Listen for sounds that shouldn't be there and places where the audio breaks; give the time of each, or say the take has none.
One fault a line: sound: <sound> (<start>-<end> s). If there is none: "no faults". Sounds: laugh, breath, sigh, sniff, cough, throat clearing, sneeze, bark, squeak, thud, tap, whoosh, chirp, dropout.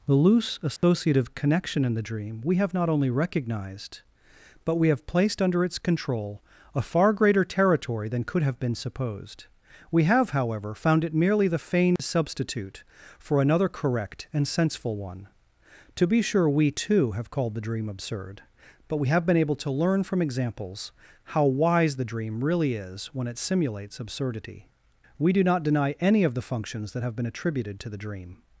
sound: dropout (0.8-0.8 s)
sound: dropout (12.0-12.0 s)